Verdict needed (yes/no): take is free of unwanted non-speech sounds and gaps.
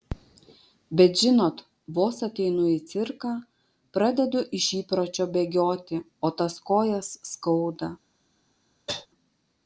no